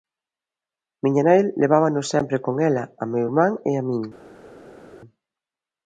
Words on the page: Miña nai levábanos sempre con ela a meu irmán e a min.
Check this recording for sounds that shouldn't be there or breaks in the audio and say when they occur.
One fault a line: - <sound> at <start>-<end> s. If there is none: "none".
none